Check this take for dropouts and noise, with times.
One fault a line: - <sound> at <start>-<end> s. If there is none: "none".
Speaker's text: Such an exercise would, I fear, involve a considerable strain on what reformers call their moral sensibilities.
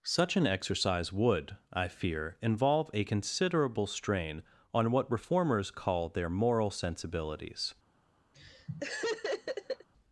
- laugh at 8.3-9.9 s